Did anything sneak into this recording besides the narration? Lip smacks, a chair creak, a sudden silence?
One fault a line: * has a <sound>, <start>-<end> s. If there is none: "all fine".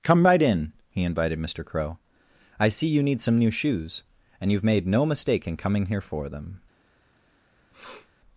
* has a sniff, 7.7-8.1 s